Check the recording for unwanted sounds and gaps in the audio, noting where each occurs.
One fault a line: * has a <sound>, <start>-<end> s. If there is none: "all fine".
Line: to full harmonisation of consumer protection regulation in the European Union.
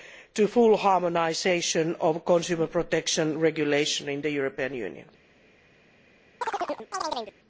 * has a chirp, 6.4-7.3 s